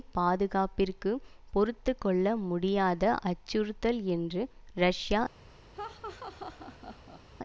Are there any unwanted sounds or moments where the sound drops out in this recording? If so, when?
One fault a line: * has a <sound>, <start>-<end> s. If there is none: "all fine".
* has a laugh, 5.7-7.2 s